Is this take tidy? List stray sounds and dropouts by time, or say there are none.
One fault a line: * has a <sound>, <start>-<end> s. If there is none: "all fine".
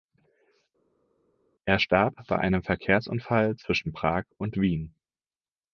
all fine